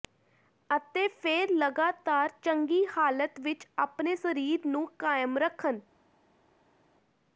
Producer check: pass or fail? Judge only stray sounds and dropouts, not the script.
pass